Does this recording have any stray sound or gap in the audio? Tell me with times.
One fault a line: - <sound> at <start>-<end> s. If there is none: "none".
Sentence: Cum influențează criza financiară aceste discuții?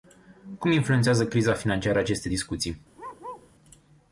- bark at 2.9-3.5 s